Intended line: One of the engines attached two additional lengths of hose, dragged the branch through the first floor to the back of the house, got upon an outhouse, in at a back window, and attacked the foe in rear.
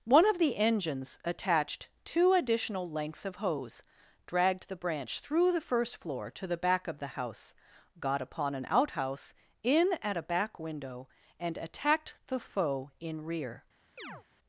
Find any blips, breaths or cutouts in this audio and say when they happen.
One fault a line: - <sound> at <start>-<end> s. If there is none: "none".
- chirp at 14.0-14.2 s